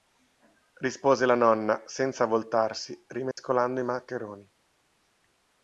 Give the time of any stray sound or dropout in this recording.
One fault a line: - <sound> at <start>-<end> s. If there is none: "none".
- dropout at 3.3-3.4 s